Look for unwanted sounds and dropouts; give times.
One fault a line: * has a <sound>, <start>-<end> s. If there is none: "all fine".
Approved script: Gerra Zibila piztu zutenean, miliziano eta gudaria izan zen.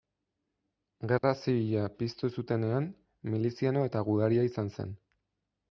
* has a dropout, 1.2-1.2 s